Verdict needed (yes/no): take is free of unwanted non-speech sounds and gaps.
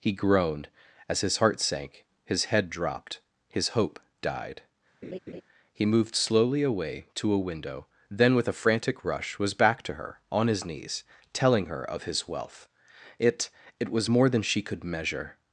no